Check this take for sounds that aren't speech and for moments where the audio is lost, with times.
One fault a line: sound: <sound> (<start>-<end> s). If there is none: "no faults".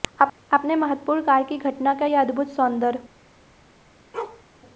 sound: bark (4.1-4.4 s)